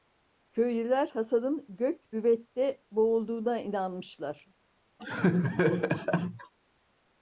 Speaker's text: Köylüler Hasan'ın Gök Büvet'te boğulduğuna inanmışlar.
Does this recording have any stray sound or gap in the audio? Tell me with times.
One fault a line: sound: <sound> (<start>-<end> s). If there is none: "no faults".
sound: laugh (5.0-6.5 s)